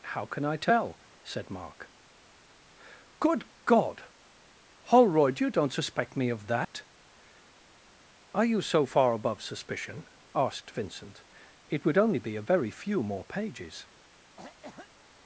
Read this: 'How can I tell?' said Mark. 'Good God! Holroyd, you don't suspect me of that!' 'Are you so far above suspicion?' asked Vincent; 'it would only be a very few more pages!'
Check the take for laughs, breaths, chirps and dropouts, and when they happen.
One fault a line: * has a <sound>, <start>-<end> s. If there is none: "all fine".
* has a dropout, 6.6-6.7 s
* has a cough, 14.4-14.9 s